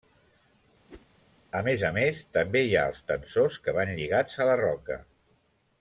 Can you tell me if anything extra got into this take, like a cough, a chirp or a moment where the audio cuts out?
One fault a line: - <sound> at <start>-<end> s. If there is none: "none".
- whoosh at 0.9-1.1 s